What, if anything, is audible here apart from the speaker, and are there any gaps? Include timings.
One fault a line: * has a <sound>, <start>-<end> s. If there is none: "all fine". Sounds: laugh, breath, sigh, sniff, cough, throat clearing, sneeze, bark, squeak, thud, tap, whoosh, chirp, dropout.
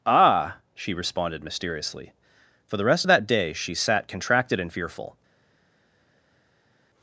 all fine